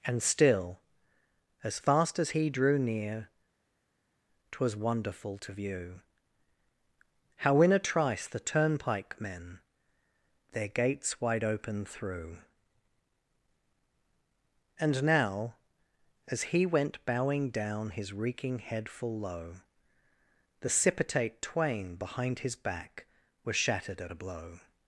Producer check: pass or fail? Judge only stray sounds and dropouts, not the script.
pass